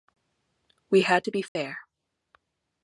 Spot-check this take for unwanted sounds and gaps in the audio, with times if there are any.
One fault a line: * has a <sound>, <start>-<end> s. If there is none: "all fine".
* has a dropout, 1.5-1.6 s